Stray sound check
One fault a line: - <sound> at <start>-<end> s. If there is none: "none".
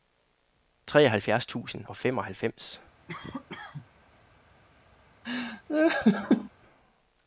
- cough at 3.1-3.9 s
- laugh at 5.2-6.5 s